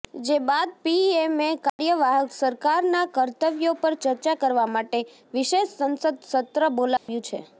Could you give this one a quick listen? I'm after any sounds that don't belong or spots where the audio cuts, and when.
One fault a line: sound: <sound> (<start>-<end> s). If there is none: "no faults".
sound: dropout (1.7-1.8 s)
sound: dropout (7.0-7.1 s)